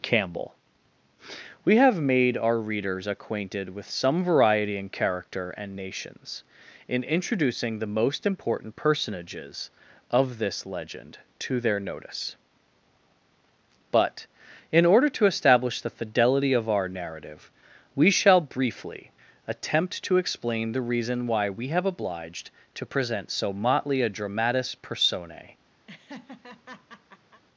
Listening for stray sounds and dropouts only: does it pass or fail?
fail